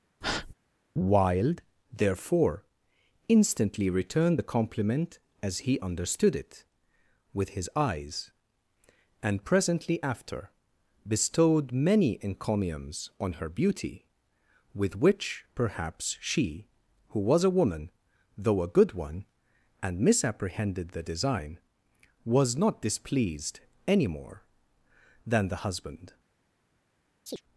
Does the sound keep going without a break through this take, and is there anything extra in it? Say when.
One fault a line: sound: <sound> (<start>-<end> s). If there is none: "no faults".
sound: breath (0.2-0.5 s)
sound: chirp (27.3-27.4 s)